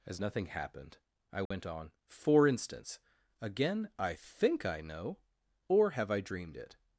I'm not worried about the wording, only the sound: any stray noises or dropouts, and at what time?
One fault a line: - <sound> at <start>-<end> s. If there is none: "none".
- dropout at 1.5-1.5 s